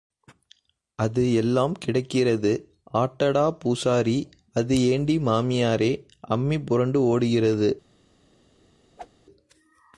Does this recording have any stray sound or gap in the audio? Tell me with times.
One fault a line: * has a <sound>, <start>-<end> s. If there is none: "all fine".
* has a whoosh, 9.0-9.1 s